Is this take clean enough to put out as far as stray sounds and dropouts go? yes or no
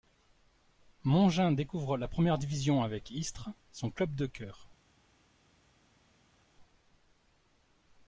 yes